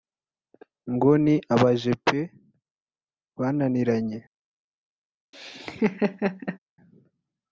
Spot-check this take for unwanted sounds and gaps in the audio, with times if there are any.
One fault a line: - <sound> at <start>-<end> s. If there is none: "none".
- laugh at 5.3-6.6 s